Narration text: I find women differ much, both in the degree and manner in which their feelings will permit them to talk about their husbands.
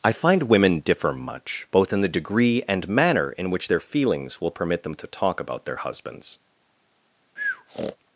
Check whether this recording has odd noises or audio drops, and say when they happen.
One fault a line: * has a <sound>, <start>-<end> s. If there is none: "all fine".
* has a breath, 7.4-8.0 s